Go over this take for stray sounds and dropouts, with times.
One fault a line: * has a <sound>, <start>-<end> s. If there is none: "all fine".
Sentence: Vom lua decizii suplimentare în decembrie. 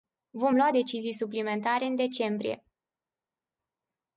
all fine